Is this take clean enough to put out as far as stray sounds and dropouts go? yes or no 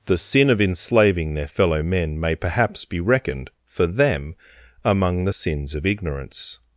yes